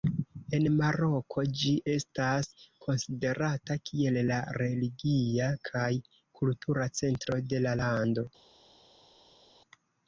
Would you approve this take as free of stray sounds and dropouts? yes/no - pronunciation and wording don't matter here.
yes